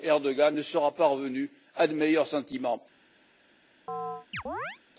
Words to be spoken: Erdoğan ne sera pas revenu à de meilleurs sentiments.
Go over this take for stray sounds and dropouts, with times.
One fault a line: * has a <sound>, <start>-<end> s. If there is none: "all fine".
* has a chirp, 3.9-4.8 s